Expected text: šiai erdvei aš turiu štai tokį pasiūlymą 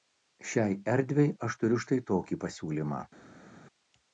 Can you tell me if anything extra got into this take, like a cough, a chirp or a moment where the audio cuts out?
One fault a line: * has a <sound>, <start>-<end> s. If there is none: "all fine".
all fine